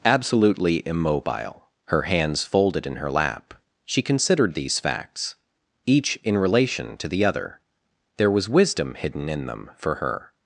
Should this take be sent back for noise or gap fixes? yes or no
no